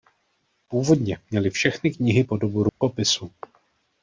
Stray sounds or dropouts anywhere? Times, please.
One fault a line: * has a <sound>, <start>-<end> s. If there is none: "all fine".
* has a dropout, 2.7-2.8 s